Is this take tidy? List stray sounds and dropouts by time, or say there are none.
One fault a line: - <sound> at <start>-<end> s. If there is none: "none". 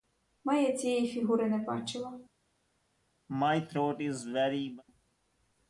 - throat clearing at 3.3-4.8 s